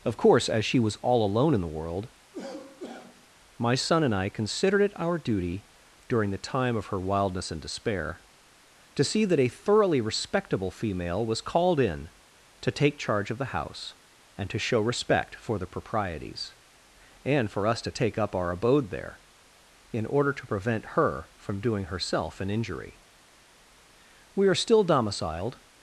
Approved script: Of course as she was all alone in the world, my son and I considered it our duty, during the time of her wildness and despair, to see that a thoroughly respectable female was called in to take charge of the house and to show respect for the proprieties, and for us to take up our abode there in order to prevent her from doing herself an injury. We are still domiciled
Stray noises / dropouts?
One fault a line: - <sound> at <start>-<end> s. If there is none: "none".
- cough at 2.3-3.3 s